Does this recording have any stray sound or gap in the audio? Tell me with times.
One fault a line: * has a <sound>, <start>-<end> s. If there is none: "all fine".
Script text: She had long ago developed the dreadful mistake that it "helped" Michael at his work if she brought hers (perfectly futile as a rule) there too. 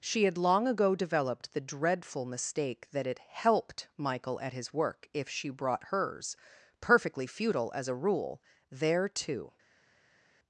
all fine